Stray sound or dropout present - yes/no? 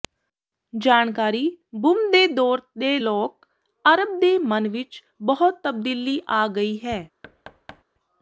yes